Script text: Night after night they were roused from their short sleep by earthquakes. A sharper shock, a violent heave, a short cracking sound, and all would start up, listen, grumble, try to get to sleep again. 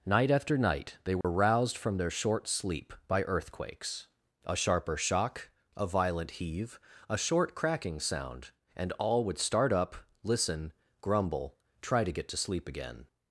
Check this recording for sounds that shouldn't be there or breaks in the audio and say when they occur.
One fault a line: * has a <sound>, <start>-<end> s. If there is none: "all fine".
* has a dropout, 1.2-1.2 s